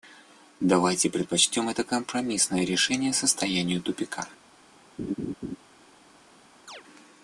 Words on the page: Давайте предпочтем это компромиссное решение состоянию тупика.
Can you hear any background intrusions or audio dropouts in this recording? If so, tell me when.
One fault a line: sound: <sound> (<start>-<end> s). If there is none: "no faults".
sound: laugh (5.0-5.6 s)
sound: chirp (6.7-6.8 s)